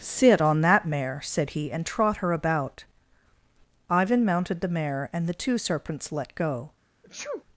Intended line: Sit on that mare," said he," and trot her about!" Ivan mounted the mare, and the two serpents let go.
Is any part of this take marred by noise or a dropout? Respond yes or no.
yes